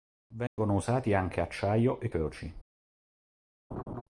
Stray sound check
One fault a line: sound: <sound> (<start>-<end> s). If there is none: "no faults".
sound: dropout (0.5-0.6 s)
sound: laugh (3.7-4.0 s)